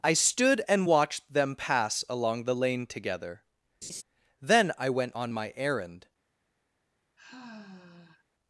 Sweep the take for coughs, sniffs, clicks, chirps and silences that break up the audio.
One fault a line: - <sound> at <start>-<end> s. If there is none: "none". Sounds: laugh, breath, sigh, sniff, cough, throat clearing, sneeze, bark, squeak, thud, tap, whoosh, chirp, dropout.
- laugh at 3.8-4.0 s
- sigh at 7.2-8.2 s